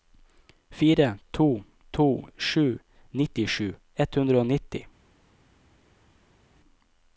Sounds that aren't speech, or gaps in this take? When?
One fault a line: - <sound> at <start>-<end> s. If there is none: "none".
none